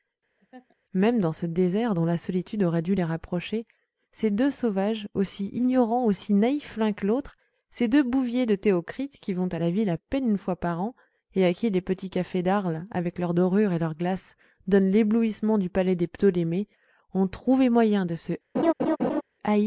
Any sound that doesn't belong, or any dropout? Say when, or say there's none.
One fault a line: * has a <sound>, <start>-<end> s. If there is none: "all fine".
* has a laugh, 0.4-0.8 s
* has a laugh, 18.5-19.2 s